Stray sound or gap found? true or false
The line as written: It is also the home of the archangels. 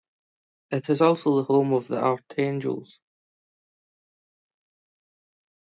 false